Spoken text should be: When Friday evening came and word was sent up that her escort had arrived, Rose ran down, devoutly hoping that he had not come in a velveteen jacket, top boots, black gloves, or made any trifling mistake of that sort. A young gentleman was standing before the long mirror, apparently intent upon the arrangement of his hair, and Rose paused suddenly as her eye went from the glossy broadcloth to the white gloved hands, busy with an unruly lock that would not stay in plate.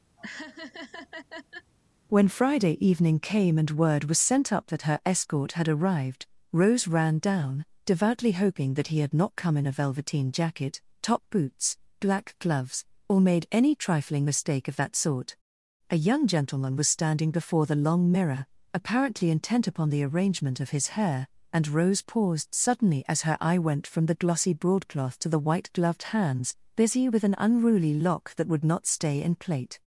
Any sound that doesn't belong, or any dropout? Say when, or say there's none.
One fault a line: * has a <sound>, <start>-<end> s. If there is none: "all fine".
* has a laugh, 0.2-1.7 s